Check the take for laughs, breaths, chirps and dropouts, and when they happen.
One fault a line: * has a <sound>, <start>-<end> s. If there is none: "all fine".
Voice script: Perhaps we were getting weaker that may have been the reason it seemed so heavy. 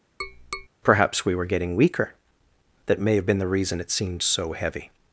* has a tap, 0.2-0.7 s